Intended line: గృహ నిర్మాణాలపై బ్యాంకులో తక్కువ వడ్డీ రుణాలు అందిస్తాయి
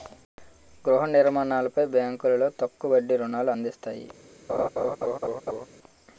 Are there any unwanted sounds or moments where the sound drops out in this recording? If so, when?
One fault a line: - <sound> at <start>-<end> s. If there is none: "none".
- laugh at 4.5-5.7 s